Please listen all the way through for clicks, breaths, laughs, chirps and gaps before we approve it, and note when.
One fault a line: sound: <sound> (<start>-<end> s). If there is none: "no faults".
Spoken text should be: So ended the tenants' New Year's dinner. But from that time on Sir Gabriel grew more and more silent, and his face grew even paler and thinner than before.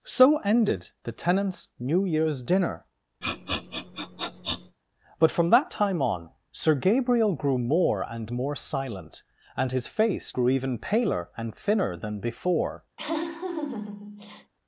sound: sniff (3.2-4.8 s)
sound: laugh (13.0-14.5 s)